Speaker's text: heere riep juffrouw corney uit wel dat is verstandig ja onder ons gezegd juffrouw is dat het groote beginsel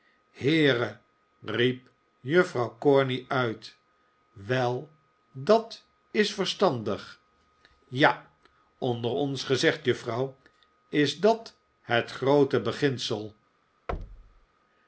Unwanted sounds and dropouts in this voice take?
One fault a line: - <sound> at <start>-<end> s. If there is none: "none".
- thud at 13.9-14.5 s